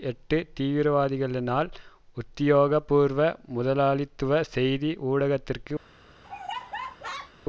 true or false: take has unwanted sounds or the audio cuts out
true